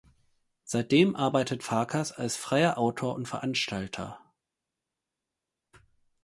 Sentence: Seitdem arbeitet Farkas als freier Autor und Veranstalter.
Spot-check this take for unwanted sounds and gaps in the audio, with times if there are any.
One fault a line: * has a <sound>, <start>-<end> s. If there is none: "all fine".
all fine